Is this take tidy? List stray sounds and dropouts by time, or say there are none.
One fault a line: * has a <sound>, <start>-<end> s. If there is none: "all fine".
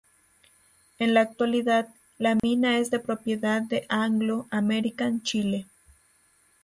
* has a dropout, 2.4-2.4 s